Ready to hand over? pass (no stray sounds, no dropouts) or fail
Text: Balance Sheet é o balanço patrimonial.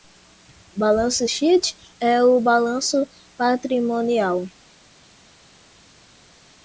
pass